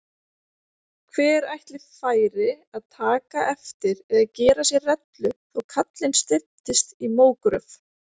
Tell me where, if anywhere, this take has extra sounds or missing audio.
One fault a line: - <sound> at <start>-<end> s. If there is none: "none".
none